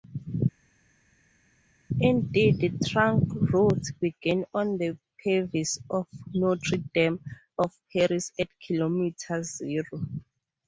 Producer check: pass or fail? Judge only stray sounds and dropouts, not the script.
pass